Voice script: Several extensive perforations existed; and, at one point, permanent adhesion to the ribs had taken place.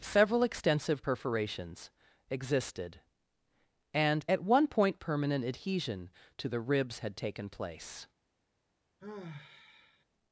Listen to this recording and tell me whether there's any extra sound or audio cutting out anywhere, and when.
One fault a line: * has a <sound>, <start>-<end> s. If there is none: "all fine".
* has a sigh, 9.0-10.0 s